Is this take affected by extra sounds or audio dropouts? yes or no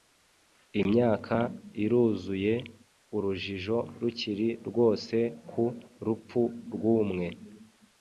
no